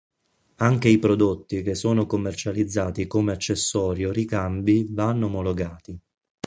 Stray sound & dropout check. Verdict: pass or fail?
pass